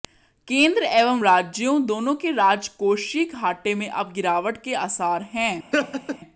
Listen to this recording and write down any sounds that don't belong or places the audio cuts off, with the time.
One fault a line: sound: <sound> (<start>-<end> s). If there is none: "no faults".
sound: laugh (5.7-6.2 s)